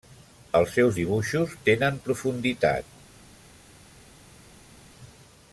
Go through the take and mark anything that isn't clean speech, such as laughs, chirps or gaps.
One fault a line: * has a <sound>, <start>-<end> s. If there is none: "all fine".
all fine